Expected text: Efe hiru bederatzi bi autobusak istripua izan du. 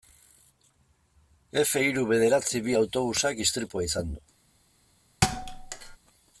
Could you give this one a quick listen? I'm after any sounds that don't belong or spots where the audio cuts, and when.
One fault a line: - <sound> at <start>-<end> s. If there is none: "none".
- thud at 5.2-6.0 s